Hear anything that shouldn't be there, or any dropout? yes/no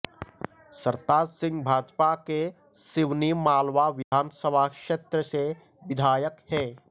yes